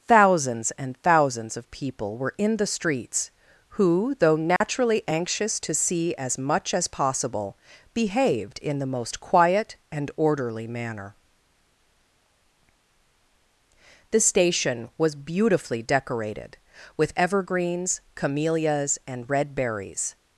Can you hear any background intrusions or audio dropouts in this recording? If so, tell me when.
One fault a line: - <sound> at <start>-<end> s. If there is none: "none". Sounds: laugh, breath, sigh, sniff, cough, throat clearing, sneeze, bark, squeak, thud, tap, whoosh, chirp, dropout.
- dropout at 4.6-4.6 s